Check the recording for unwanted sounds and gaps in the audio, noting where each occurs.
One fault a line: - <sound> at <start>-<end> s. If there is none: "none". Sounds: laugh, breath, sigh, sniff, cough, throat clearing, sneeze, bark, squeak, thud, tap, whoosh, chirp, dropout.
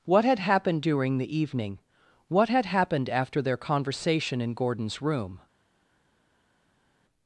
none